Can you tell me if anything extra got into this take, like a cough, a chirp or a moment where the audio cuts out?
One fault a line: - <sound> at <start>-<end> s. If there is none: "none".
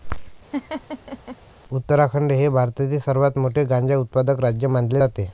- laugh at 0.5-1.4 s